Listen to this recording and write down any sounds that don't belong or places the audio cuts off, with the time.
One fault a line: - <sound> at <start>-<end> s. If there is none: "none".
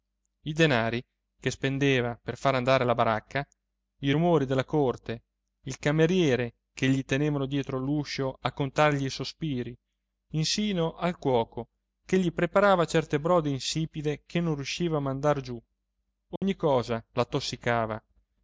- dropout at 16.4-16.4 s